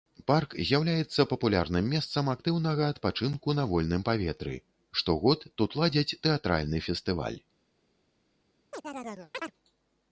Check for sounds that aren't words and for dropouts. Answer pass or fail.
fail